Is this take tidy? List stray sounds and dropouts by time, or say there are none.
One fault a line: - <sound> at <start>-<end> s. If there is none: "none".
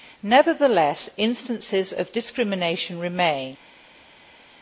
none